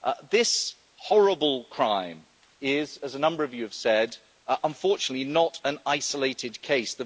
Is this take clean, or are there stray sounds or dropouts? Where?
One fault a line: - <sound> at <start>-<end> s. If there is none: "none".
none